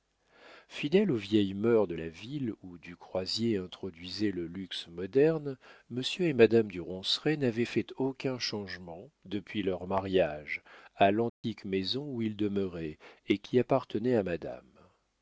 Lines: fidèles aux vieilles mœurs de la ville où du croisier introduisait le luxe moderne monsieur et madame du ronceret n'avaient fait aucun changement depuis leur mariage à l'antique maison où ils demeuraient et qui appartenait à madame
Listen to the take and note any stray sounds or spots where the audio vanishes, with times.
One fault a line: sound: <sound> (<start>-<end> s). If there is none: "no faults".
sound: dropout (11.3-11.4 s)